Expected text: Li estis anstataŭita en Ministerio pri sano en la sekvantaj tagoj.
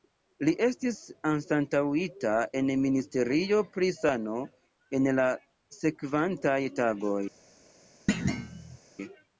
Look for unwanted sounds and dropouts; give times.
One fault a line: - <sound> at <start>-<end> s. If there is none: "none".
- thud at 8.1-8.8 s